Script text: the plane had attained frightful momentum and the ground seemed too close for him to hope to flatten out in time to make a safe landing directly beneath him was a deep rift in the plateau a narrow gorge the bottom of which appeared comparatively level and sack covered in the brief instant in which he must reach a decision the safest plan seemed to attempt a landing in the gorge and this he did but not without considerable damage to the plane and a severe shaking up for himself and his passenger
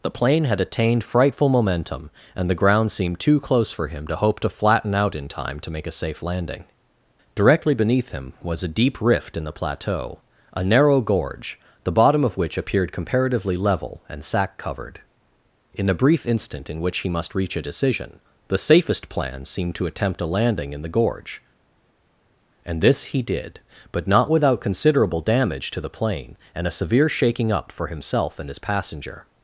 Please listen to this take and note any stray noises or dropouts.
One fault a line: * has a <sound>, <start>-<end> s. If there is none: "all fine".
all fine